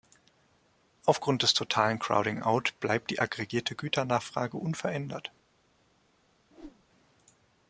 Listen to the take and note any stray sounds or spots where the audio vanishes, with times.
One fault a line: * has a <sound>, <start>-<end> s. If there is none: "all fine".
* has a whoosh, 6.5-6.8 s